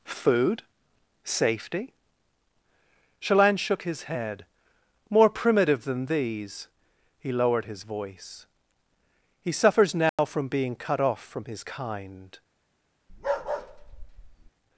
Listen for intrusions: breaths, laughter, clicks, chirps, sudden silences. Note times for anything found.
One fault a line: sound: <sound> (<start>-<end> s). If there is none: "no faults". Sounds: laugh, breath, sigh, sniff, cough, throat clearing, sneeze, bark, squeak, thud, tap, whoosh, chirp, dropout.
sound: dropout (10.1-10.2 s)
sound: bark (13.1-14.5 s)